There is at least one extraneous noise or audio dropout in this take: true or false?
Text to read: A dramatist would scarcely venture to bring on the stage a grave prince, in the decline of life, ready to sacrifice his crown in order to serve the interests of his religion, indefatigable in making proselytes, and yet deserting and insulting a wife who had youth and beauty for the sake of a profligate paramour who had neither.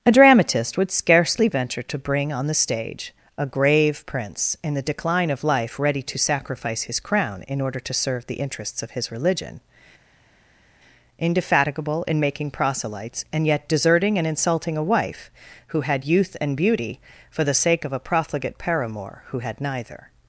false